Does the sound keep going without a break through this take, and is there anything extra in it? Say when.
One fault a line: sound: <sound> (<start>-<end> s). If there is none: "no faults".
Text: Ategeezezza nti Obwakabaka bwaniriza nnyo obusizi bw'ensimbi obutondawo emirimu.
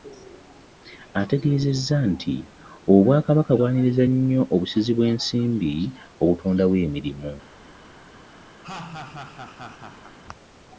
sound: laugh (8.6-10.2 s)